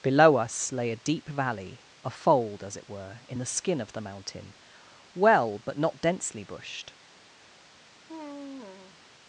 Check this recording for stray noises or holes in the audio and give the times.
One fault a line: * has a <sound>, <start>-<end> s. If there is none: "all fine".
* has a sigh, 8.1-9.0 s